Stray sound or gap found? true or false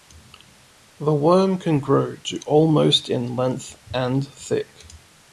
false